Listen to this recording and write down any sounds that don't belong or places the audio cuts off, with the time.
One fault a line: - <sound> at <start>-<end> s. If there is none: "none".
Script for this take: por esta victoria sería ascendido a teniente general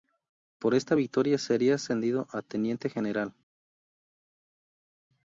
none